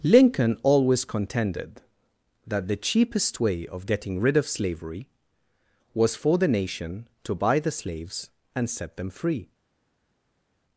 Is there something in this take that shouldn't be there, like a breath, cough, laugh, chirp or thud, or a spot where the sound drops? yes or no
no